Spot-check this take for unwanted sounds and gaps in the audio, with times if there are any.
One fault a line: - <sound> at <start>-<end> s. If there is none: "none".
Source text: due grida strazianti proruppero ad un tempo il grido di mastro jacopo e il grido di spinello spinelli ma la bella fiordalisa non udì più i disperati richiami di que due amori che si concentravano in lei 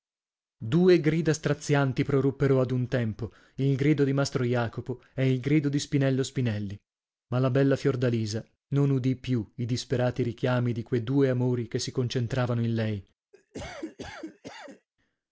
- cough at 13.3-14.9 s